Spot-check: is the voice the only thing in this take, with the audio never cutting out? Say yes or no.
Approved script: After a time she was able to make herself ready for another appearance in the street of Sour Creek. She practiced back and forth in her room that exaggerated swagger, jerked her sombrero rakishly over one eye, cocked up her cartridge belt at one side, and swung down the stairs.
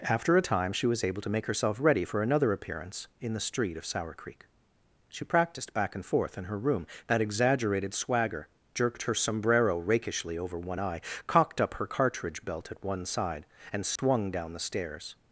no